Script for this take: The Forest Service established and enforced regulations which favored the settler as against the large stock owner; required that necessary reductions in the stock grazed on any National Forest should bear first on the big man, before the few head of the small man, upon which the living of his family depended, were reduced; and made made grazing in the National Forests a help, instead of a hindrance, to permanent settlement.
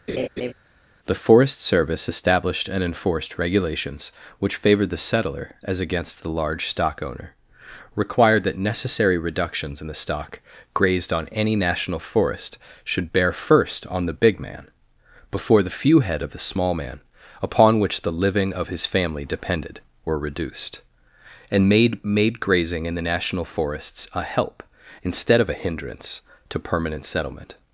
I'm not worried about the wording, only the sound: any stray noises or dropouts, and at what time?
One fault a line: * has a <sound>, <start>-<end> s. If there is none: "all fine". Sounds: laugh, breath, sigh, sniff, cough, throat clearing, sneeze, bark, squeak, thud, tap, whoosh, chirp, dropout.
* has a laugh, 0.1-0.5 s